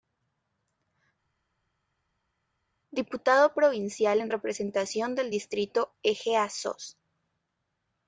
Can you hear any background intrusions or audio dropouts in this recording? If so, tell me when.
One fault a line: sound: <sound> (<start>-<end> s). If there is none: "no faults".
no faults